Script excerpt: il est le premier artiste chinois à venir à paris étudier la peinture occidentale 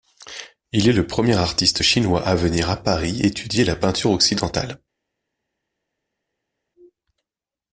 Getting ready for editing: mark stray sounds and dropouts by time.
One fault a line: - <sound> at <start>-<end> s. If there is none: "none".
none